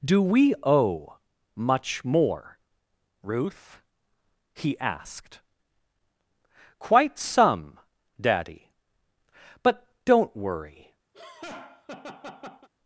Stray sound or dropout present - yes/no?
yes